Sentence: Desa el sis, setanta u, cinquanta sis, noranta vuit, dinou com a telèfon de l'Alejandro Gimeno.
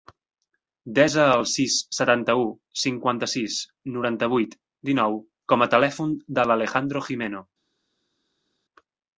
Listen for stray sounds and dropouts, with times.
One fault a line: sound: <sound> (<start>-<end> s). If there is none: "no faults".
no faults